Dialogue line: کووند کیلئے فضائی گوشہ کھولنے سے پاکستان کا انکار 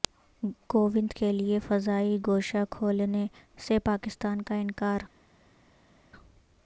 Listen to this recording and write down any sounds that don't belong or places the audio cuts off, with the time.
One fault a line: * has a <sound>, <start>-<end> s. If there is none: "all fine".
all fine